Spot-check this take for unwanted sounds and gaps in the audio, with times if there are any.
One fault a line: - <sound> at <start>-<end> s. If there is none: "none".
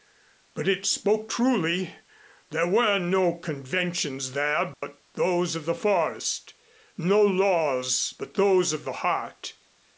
- dropout at 4.7-4.8 s